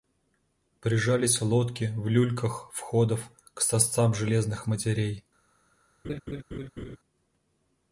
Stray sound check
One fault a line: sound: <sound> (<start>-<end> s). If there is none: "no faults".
sound: laugh (6.0-7.0 s)